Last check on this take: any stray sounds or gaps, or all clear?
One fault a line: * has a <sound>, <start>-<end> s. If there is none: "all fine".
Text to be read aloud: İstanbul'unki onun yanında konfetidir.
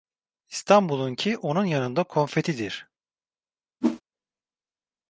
* has a whoosh, 3.8-4.0 s